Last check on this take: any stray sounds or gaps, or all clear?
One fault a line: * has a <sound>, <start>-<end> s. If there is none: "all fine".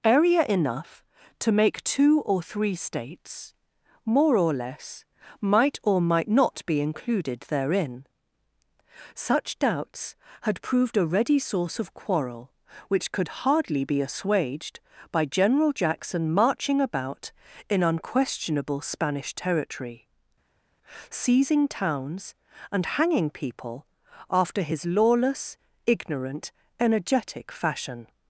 all fine